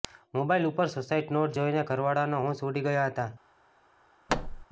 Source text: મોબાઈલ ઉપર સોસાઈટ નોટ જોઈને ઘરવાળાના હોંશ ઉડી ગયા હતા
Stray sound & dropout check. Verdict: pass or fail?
fail